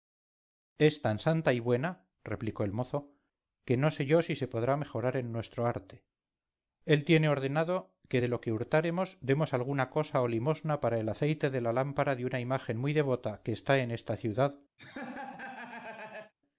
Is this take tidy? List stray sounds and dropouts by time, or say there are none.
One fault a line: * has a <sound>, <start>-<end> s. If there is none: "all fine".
* has a laugh, 14.8-16.3 s